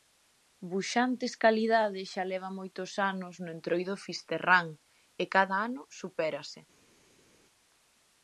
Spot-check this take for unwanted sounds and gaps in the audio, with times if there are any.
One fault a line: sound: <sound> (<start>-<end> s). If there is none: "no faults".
no faults